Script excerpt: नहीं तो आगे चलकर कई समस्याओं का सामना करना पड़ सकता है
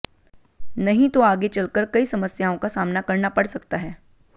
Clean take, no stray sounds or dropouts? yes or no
yes